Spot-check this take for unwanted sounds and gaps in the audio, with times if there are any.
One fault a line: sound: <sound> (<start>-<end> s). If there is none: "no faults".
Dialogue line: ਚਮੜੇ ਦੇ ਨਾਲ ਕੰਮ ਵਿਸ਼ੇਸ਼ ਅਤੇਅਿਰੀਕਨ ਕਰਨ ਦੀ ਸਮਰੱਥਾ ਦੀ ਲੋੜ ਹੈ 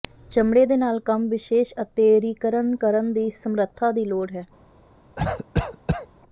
sound: cough (5.2-6.1 s)